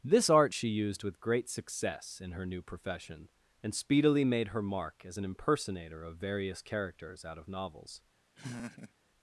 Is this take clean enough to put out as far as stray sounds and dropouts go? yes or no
no